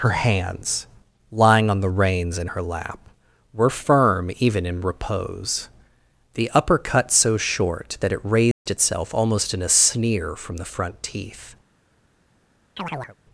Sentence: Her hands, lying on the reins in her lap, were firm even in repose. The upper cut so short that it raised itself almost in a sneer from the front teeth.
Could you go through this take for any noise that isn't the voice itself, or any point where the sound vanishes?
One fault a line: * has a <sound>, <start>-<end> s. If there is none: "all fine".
* has a dropout, 8.5-8.7 s
* has a chirp, 12.8-13.2 s